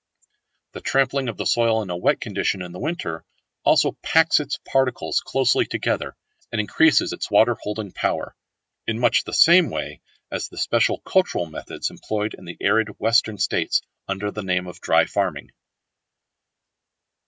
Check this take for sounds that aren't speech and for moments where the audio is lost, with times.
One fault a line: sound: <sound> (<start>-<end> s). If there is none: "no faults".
no faults